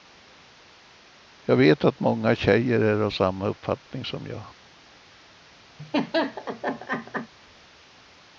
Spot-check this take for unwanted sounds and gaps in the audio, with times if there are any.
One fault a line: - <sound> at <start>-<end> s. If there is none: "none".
- laugh at 5.8-7.3 s